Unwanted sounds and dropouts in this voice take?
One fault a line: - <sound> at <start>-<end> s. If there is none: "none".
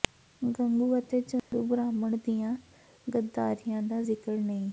- dropout at 1.4-1.5 s